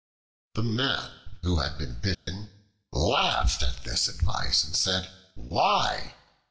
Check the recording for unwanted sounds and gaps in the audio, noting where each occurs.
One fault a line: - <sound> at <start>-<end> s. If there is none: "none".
- dropout at 2.1-2.3 s